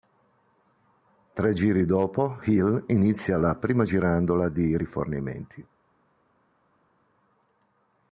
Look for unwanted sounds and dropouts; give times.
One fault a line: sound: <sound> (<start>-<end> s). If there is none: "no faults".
no faults